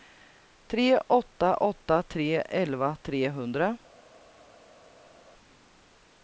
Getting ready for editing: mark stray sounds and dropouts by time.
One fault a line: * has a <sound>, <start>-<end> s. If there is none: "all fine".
all fine